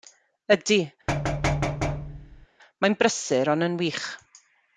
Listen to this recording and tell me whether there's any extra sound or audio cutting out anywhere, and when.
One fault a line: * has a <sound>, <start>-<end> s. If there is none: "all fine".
* has a thud, 1.1-2.5 s